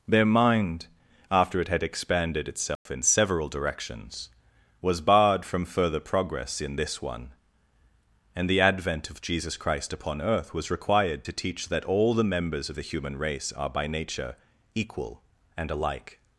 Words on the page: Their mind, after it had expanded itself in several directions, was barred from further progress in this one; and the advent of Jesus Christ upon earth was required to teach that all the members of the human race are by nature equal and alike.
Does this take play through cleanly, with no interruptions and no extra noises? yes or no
no